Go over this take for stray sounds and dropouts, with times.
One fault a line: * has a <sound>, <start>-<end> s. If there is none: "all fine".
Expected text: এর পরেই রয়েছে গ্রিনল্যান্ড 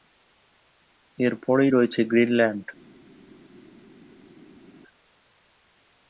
all fine